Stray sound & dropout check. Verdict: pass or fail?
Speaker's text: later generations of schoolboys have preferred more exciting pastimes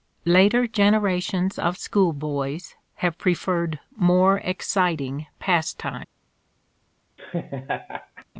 fail